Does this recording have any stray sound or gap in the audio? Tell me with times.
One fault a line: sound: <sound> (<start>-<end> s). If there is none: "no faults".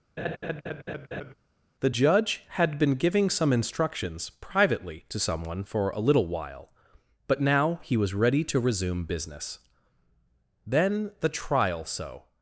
sound: laugh (0.2-1.3 s)